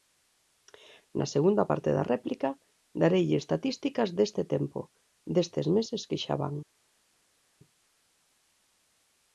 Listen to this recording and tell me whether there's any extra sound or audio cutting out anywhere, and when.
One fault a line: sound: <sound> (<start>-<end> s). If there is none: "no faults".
no faults